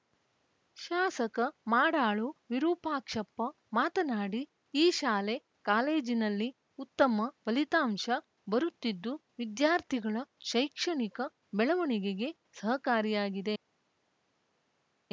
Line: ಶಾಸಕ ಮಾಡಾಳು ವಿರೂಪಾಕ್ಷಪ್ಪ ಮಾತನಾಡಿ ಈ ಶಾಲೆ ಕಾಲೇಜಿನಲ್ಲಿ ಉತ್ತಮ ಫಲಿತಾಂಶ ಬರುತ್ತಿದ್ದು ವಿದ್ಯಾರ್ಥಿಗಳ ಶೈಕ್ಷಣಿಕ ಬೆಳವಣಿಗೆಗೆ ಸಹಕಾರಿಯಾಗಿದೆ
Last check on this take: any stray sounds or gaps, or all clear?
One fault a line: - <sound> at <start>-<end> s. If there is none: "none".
none